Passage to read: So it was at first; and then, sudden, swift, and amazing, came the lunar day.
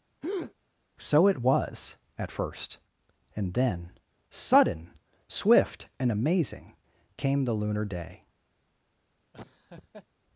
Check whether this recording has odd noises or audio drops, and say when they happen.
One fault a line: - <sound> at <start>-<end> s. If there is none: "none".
- breath at 0.2-0.5 s
- laugh at 9.3-10.1 s